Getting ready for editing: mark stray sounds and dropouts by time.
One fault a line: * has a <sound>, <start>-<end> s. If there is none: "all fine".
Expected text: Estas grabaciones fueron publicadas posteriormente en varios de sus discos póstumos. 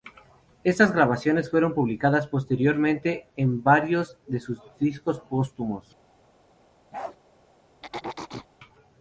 * has a bark, 6.9-7.2 s
* has a throat clearing, 7.8-8.5 s